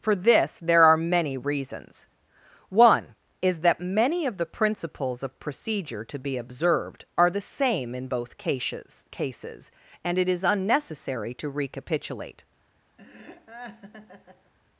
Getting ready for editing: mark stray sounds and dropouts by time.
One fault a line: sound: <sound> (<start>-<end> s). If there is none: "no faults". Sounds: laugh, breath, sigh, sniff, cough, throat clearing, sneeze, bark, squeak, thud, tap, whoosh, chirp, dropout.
sound: laugh (13.0-14.5 s)